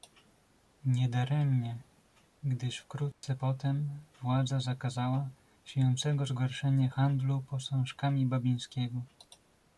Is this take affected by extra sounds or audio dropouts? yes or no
yes